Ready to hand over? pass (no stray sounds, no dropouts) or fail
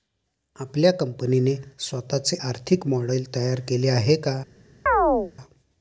fail